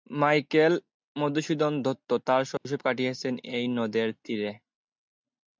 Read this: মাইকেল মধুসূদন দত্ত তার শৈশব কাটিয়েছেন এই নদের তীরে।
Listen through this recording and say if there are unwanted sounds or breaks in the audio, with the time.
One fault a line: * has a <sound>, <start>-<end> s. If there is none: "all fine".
* has a dropout, 2.6-2.6 s